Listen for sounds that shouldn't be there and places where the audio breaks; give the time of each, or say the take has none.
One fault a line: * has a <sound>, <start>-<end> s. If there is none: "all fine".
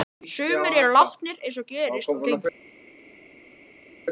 all fine